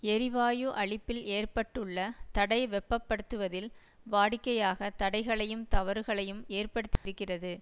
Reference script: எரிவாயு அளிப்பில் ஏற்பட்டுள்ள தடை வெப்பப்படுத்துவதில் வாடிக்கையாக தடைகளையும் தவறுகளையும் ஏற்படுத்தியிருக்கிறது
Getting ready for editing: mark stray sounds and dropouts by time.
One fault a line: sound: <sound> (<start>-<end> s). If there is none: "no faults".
sound: dropout (7.0-7.1 s)